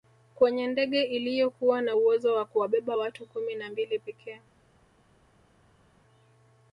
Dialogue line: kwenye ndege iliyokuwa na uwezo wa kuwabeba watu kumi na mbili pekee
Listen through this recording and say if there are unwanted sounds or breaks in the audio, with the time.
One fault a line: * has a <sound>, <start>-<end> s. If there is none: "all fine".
all fine